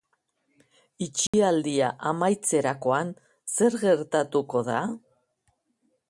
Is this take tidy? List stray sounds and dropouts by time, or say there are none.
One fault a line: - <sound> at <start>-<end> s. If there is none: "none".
- dropout at 1.3-1.3 s